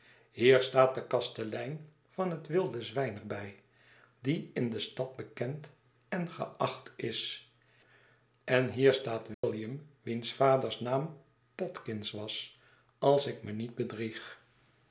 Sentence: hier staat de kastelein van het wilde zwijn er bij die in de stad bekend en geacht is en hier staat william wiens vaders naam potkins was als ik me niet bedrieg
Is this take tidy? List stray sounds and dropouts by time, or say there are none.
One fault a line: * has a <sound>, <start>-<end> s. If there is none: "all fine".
* has a dropout, 9.3-9.4 s